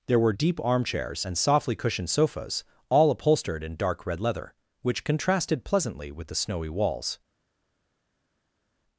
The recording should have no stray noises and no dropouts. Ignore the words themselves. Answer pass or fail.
pass